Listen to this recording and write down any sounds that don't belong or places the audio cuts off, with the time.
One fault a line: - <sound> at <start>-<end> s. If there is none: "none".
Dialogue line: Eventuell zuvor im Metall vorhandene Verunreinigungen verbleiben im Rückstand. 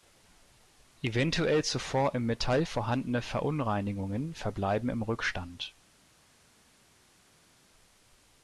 none